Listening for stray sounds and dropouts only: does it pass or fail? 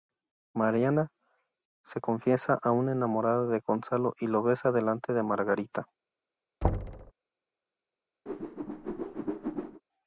fail